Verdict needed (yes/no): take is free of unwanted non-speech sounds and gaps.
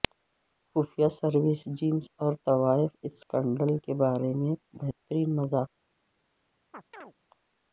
no